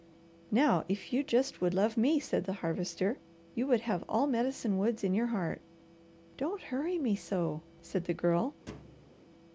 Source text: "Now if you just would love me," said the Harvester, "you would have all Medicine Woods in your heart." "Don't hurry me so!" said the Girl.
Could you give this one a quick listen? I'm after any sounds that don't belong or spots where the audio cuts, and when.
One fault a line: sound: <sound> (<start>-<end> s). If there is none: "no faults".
sound: thud (8.7-9.2 s)